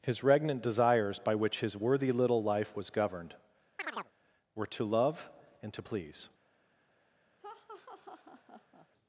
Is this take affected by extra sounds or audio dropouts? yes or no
yes